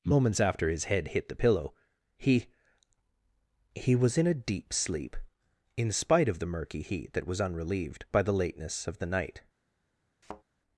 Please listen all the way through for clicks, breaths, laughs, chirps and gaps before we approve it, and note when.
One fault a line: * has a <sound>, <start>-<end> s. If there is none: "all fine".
* has a thud, 10.2-10.4 s